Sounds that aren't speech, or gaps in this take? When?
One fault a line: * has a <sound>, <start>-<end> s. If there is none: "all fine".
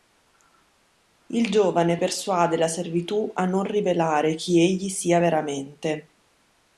all fine